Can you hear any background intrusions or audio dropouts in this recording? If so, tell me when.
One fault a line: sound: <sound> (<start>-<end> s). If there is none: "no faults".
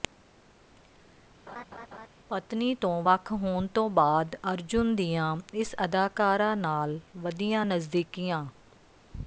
sound: laugh (1.5-2.1 s)